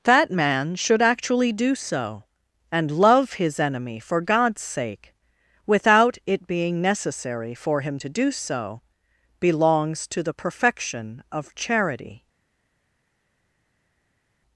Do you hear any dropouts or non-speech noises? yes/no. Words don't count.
no